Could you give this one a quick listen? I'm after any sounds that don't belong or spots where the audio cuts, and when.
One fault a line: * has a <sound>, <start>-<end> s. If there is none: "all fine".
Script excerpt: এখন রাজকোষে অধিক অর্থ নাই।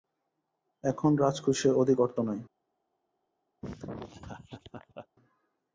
* has a laugh, 3.6-5.1 s